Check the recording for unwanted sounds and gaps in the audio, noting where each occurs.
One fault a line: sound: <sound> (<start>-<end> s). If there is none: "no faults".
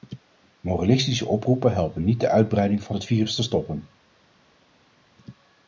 no faults